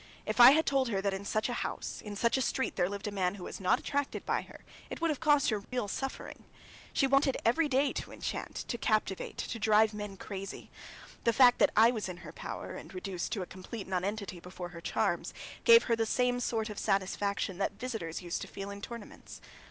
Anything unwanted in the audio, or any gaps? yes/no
yes